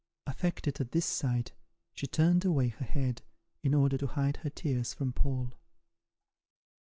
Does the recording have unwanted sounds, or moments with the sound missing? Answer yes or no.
no